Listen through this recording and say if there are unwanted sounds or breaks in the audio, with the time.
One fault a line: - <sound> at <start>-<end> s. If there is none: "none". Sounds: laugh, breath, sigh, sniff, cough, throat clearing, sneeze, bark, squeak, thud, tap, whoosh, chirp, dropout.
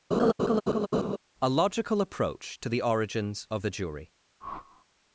- laugh at 0.1-1.2 s
- whoosh at 4.4-4.9 s